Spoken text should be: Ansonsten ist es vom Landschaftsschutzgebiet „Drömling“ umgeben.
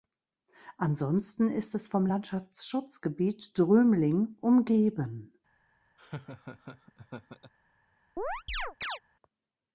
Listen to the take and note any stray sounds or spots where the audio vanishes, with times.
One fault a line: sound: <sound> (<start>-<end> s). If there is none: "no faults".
sound: laugh (6.0-7.5 s)
sound: chirp (8.2-9.0 s)